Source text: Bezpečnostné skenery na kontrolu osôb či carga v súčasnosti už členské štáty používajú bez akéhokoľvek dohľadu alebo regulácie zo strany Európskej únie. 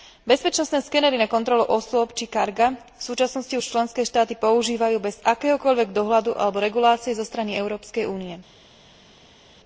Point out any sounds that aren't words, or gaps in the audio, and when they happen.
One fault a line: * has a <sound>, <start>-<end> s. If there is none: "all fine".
all fine